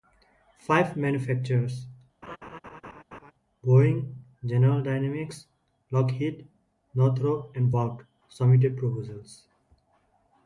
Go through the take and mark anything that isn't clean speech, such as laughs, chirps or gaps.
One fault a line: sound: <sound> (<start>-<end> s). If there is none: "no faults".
sound: laugh (2.2-3.3 s)